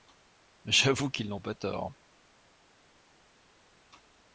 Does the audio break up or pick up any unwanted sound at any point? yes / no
no